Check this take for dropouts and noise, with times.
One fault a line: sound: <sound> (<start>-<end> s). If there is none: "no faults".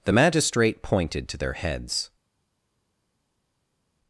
no faults